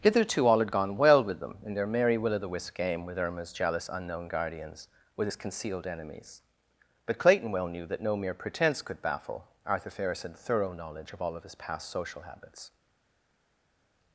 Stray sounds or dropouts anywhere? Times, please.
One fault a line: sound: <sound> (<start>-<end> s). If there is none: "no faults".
no faults